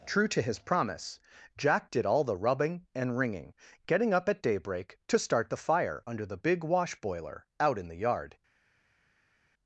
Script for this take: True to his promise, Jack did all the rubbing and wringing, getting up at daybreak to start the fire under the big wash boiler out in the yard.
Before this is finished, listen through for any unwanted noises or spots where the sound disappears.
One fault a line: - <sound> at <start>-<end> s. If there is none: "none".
none